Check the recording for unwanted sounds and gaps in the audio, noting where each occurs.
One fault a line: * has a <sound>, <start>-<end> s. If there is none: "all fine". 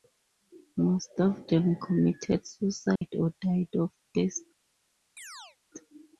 * has a dropout, 3.0-3.0 s
* has a chirp, 5.2-5.6 s